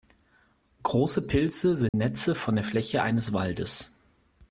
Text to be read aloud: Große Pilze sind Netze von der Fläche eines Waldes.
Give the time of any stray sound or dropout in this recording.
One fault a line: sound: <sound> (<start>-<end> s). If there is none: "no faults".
sound: dropout (1.9-1.9 s)